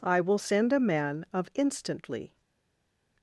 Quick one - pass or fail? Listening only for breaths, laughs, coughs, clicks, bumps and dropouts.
pass